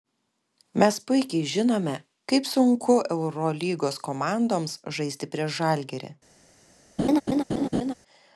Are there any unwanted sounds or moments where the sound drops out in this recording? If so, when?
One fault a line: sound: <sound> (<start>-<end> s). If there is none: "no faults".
sound: laugh (7.0-7.9 s)